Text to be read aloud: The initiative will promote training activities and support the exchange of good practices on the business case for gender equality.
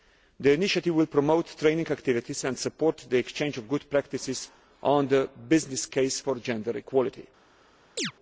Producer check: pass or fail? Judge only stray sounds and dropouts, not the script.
fail